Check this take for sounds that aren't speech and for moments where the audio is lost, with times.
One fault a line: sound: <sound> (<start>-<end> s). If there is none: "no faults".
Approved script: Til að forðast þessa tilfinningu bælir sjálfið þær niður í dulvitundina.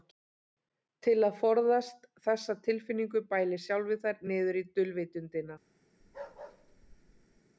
sound: bark (6.0-7.4 s)